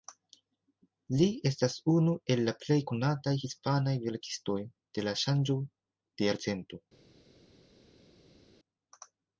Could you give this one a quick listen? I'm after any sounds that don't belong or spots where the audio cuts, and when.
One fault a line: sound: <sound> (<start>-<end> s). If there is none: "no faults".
no faults